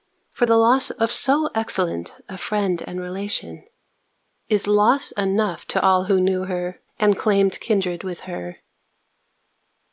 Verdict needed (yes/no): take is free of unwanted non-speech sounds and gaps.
yes